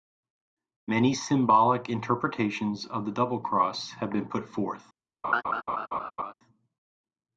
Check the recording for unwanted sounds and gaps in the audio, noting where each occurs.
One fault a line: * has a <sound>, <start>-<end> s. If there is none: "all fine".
* has a laugh, 5.2-6.3 s